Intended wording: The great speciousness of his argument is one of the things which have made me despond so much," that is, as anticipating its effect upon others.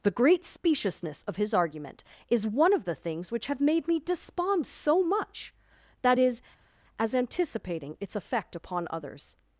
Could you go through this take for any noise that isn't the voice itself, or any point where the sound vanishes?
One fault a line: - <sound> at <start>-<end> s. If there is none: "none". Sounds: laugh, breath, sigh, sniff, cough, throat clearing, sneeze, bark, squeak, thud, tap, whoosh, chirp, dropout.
none